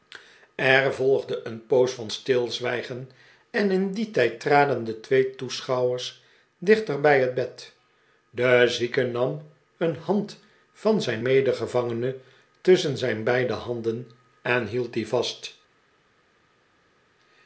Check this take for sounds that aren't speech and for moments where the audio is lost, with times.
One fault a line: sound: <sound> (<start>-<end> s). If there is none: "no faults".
no faults